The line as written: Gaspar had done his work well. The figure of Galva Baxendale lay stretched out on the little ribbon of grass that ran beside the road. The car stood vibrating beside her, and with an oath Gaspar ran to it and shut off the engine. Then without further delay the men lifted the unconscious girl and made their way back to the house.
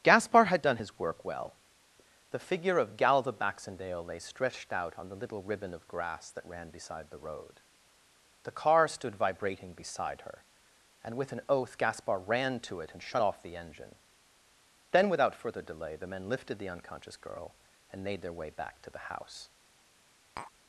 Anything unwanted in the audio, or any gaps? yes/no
yes